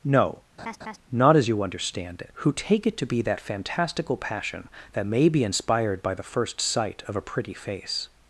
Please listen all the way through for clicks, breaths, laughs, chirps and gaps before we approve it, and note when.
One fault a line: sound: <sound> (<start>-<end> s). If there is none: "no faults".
sound: laugh (0.6-1.0 s)